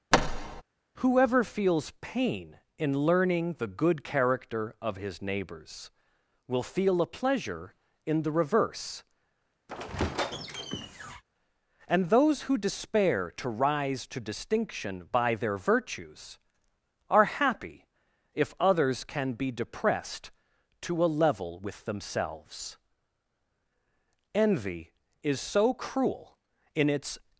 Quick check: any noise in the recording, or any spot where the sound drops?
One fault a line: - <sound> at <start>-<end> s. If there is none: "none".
- thud at 0.1-0.6 s
- squeak at 9.7-11.2 s